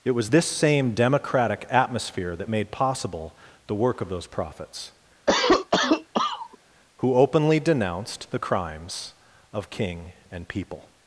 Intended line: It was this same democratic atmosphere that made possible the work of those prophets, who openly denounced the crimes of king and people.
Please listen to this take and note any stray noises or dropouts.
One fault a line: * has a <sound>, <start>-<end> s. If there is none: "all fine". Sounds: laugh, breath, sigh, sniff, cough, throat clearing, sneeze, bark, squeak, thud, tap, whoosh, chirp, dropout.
* has a cough, 5.3-6.6 s